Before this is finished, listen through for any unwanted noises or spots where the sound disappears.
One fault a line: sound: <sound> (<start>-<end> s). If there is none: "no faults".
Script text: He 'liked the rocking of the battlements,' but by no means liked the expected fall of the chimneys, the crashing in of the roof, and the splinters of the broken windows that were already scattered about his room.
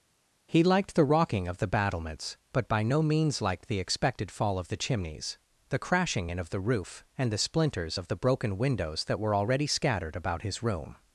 no faults